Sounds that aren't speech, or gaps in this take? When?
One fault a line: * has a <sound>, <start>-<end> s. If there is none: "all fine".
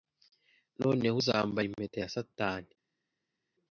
all fine